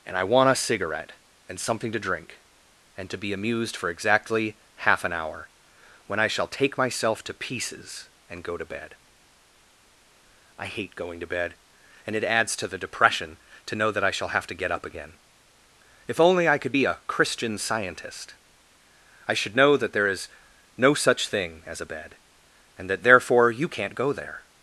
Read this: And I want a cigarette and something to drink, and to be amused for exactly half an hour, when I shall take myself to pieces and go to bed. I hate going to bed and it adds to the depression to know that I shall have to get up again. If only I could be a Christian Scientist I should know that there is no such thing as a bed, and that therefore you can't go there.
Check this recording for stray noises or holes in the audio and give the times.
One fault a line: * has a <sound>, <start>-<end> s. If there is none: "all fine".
all fine